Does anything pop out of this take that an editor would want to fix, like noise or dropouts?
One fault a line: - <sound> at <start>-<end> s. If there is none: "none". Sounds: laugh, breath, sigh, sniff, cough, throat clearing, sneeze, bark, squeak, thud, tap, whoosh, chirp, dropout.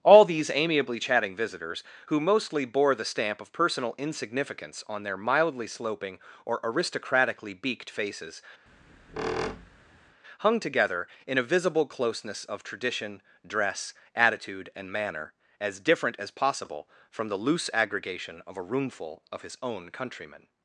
- squeak at 8.7-10.2 s